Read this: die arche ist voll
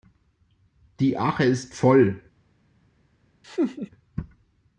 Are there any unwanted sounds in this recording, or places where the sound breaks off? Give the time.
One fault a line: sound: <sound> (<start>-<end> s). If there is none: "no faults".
sound: laugh (3.4-3.9 s)